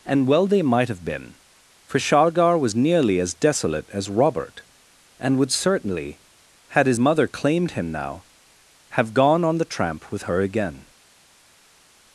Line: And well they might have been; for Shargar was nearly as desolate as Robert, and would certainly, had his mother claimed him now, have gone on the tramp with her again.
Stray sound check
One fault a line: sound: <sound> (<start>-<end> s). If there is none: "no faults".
no faults